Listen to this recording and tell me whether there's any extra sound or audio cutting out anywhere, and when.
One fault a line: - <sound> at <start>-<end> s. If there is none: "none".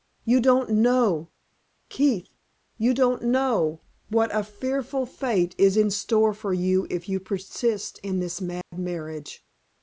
- dropout at 8.6-8.7 s